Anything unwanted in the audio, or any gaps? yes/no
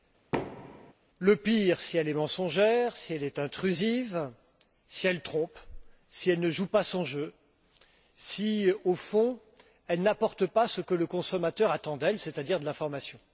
yes